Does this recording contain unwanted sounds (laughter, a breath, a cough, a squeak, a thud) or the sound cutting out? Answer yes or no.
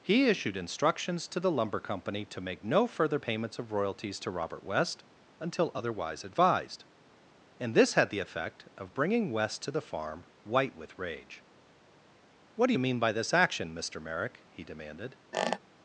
yes